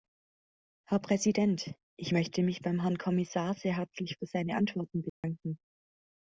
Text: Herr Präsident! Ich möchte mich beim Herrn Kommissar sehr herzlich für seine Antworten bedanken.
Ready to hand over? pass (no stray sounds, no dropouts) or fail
fail